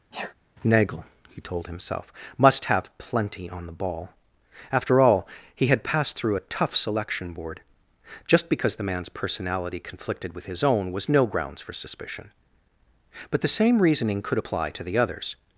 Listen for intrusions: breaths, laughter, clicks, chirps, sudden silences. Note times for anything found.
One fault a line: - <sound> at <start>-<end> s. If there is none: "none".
- sneeze at 0.1-0.3 s